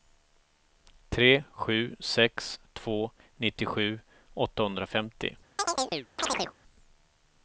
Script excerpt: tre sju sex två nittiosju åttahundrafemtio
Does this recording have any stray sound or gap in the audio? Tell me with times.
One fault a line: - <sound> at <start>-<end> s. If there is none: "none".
- chirp at 5.6-6.5 s